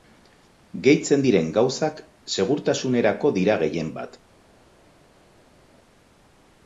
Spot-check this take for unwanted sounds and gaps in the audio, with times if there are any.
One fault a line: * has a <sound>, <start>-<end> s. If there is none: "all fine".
all fine